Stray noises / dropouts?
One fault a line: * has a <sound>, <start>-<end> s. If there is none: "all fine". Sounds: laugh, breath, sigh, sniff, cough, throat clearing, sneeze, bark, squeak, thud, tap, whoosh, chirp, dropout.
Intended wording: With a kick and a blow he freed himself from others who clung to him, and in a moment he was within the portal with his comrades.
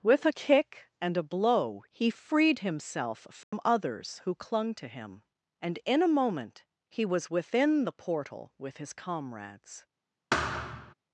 * has a dropout, 3.4-3.5 s
* has a thud, 10.3-10.9 s